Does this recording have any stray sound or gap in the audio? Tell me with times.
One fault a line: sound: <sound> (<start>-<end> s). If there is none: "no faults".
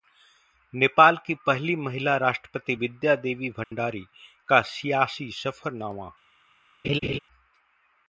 sound: dropout (3.6-3.7 s)
sound: laugh (6.8-7.2 s)